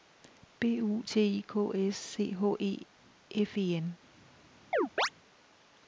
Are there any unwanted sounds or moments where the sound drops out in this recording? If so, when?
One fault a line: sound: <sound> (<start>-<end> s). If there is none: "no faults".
sound: chirp (4.7-5.1 s)